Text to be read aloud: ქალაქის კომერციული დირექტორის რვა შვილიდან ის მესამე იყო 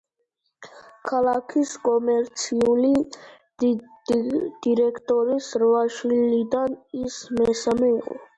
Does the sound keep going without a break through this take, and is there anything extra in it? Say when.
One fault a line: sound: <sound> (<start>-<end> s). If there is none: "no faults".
no faults